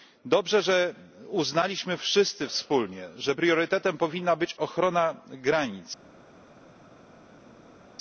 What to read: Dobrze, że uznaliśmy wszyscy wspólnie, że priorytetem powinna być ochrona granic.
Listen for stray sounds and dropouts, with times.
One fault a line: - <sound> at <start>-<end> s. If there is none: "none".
none